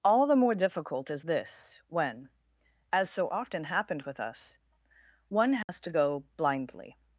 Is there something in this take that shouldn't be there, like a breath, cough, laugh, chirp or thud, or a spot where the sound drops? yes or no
yes